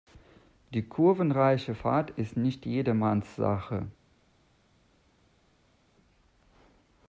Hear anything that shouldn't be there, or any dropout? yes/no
no